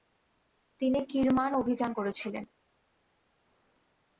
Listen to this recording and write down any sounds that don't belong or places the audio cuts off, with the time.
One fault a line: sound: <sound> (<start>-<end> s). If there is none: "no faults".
no faults